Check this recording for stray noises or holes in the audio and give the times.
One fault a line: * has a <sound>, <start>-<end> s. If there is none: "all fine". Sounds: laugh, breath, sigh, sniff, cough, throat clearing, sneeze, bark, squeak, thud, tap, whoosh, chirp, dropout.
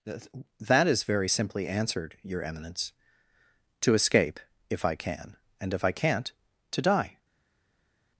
all fine